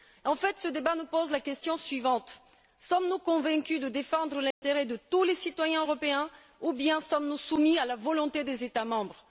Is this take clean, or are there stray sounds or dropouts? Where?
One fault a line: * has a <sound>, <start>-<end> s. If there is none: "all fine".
* has a dropout, 4.5-4.6 s